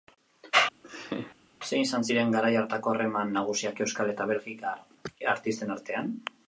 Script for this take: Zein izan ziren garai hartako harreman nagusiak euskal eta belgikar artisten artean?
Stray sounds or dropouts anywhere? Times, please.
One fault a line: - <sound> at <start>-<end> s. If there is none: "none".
- laugh at 0.8-1.4 s